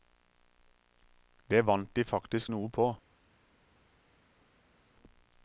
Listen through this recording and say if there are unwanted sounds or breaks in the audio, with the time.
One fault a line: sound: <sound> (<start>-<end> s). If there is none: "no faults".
no faults